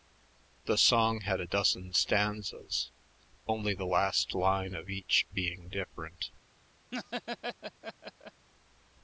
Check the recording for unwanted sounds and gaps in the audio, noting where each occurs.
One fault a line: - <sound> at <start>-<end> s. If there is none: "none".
- laugh at 6.9-8.5 s